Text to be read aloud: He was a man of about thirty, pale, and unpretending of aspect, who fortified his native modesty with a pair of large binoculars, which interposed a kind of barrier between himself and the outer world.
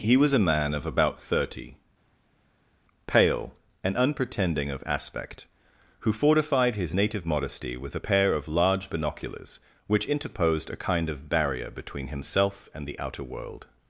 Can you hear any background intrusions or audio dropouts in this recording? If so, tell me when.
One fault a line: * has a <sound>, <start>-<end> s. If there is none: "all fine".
all fine